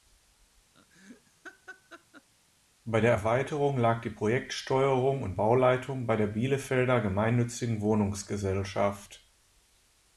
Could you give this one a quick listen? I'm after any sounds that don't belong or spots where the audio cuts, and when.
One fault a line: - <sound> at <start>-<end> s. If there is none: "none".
- laugh at 0.7-2.3 s